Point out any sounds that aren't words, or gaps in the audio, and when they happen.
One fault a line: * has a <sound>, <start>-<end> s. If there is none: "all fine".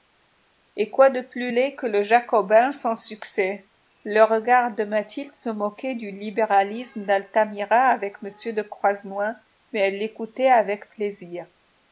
all fine